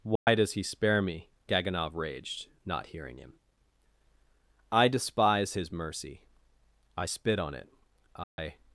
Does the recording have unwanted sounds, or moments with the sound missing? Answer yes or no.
yes